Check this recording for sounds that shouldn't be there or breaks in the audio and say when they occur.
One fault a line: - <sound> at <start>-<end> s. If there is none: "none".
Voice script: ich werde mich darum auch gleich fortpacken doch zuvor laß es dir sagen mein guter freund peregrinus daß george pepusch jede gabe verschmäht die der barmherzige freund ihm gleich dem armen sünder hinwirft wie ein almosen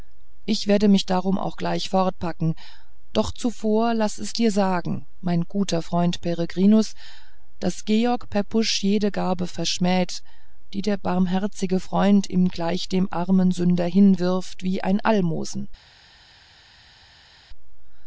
none